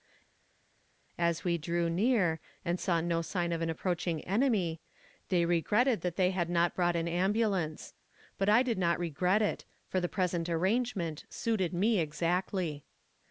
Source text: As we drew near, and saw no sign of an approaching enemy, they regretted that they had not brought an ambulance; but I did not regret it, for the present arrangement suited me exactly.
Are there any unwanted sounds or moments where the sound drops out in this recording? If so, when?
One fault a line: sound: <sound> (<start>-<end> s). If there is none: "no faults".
no faults